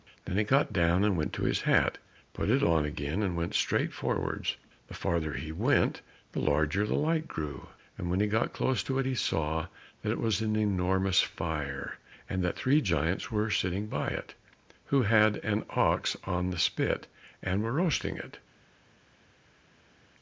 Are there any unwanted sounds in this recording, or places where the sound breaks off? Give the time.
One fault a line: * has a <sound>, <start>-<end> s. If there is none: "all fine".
all fine